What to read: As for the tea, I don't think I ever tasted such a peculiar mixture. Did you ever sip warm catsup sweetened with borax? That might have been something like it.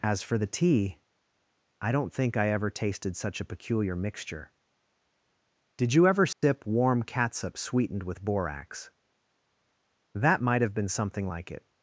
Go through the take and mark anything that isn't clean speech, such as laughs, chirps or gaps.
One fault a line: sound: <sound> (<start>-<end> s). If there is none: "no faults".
sound: dropout (6.3-6.4 s)